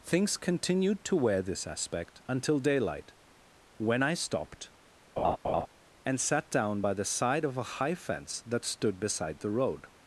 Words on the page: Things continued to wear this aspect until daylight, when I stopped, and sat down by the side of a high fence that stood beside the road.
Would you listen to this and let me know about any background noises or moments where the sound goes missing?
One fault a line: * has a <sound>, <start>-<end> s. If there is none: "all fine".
* has a laugh, 5.2-5.7 s